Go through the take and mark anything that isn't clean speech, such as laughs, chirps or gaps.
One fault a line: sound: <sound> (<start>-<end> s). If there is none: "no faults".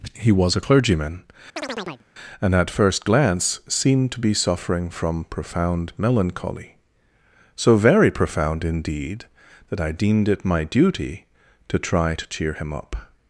sound: chirp (1.6-2.1 s)